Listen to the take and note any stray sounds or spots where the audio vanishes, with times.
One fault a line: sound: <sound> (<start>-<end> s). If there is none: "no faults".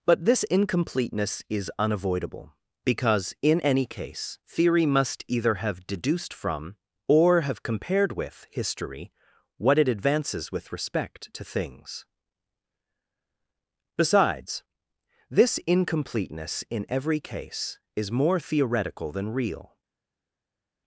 no faults